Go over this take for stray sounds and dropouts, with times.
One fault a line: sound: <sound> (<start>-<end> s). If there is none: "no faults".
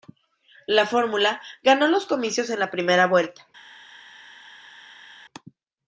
no faults